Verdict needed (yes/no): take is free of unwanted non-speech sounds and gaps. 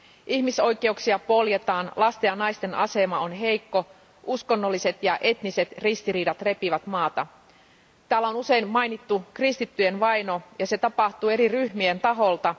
yes